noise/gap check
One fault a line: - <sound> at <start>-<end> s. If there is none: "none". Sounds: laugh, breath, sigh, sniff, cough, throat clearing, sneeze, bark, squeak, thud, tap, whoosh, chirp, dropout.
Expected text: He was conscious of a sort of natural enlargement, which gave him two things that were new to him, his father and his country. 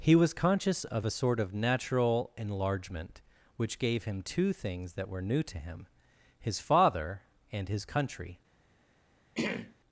- throat clearing at 9.4-9.8 s